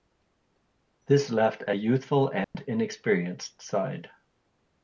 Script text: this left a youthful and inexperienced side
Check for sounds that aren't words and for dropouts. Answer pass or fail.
fail